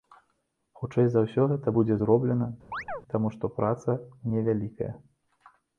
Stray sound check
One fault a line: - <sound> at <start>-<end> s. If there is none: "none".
- chirp at 2.7-3.0 s